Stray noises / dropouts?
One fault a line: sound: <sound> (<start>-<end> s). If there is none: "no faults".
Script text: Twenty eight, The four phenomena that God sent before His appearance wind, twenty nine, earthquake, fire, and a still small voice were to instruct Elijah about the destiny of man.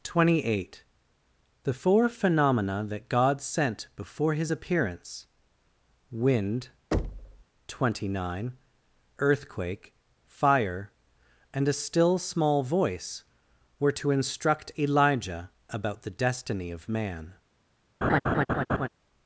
sound: thud (6.9-7.4 s)
sound: laugh (18.0-18.9 s)